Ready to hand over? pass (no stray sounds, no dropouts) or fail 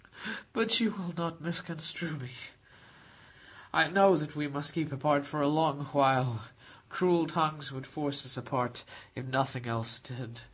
pass